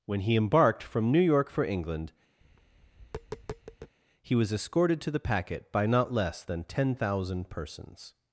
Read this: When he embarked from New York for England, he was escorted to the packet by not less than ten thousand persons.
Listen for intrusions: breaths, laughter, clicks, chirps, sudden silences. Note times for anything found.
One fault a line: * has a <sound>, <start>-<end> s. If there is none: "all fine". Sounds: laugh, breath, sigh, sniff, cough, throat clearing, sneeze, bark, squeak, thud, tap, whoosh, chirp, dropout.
* has a tap, 2.4-4.0 s